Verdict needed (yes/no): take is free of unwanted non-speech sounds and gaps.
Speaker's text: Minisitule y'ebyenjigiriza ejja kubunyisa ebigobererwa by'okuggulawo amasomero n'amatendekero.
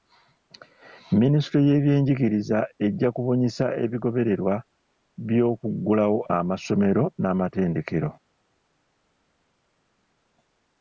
yes